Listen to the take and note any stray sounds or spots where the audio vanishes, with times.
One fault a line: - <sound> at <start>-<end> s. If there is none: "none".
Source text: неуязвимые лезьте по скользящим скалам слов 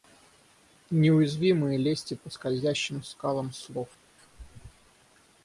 none